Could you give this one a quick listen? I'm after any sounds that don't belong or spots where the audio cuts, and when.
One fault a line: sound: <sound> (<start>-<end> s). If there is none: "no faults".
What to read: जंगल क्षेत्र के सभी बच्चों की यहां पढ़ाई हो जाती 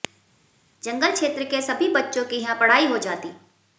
no faults